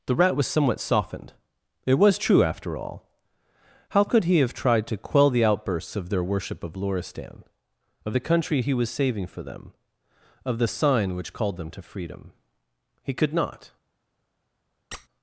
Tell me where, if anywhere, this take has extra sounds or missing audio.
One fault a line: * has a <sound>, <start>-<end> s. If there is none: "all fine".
* has a squeak, 14.9-15.1 s